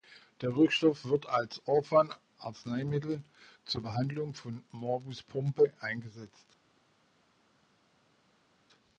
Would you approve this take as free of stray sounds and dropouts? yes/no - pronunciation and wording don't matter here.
yes